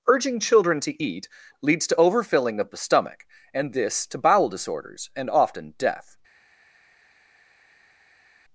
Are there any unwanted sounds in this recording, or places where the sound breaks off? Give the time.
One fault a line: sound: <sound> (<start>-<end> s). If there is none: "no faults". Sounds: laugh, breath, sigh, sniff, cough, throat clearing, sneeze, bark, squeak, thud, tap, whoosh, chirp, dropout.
no faults